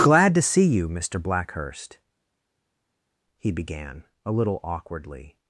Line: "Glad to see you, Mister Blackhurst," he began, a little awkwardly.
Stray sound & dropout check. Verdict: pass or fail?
pass